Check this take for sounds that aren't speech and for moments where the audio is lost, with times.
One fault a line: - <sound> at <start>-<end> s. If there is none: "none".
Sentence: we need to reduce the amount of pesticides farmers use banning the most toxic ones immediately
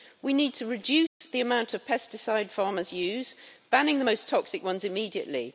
- dropout at 1.1-1.2 s